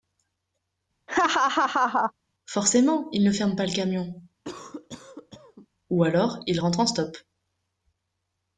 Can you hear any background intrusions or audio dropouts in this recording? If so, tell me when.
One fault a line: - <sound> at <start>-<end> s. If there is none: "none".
- laugh at 1.1-2.1 s
- cough at 4.4-5.7 s